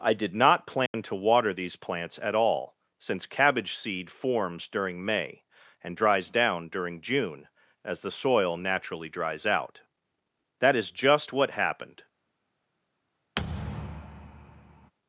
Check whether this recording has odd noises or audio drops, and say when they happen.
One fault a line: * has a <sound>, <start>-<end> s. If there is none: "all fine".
* has a dropout, 0.9-0.9 s
* has a thud, 13.4-14.9 s